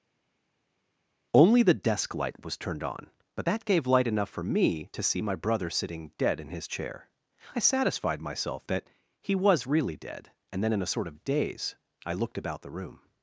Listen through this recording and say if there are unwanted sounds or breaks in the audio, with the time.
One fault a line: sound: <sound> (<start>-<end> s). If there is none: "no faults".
no faults